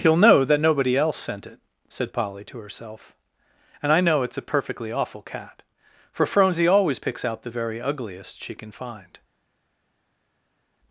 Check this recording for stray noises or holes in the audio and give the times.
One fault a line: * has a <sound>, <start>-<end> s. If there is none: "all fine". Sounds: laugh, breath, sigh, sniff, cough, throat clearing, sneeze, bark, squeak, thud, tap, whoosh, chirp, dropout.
all fine